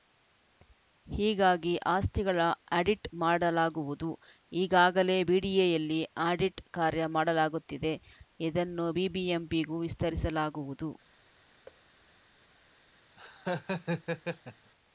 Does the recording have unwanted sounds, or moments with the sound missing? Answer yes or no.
yes